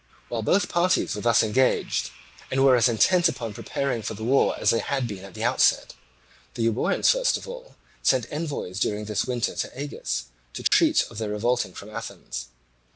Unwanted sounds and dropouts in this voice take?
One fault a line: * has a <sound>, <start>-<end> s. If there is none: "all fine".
* has a dropout, 10.7-10.7 s